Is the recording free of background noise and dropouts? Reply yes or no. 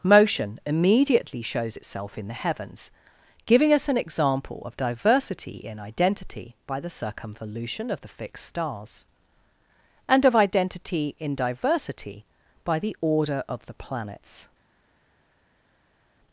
yes